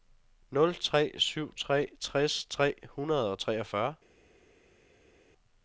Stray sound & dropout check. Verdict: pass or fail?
pass